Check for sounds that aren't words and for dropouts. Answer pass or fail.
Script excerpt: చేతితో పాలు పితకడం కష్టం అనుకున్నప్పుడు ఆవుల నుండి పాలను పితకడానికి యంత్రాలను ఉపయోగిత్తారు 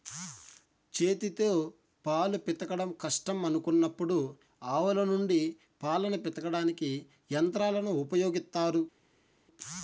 pass